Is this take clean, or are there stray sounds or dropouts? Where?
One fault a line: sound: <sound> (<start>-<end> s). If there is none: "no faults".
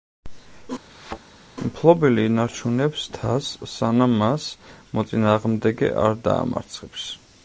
sound: thud (0.9-1.2 s)